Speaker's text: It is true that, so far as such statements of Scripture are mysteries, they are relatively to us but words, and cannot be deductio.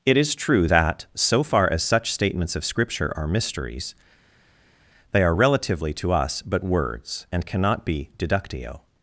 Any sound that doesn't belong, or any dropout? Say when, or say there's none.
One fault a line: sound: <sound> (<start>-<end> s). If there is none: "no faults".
no faults